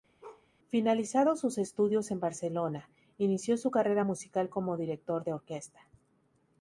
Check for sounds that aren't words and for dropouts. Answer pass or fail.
fail